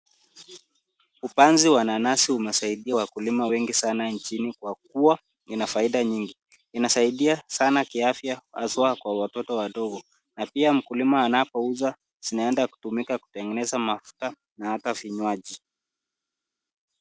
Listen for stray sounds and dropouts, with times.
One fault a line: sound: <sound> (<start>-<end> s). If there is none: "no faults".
no faults